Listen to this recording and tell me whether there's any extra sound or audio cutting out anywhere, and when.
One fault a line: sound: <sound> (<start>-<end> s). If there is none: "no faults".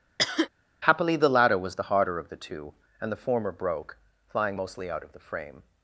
sound: cough (0.2-0.5 s)